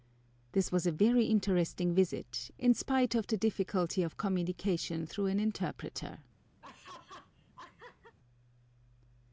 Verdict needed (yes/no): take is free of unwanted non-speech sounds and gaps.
no